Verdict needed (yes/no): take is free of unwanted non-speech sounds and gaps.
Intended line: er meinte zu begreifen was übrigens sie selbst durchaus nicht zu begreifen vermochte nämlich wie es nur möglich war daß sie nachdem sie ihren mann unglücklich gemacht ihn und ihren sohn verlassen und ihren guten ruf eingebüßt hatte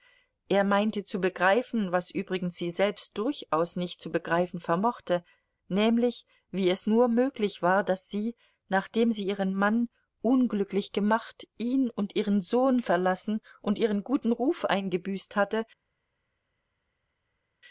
yes